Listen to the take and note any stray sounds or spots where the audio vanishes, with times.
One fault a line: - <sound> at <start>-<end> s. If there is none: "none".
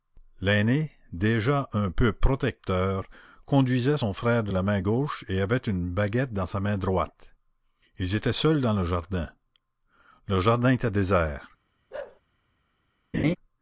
- bark at 11.9-12.2 s
- laugh at 13.1-13.4 s